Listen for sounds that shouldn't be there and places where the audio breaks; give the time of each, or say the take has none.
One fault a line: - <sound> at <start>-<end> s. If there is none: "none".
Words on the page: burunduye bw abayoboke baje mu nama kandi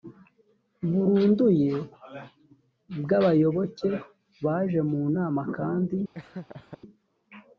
- laugh at 6.1-6.8 s